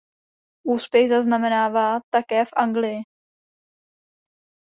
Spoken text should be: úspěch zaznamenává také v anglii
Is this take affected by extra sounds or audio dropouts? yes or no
no